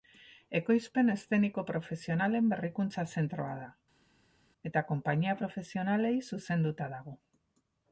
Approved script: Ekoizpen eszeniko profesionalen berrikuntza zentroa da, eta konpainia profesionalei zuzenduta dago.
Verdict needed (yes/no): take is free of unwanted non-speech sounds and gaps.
yes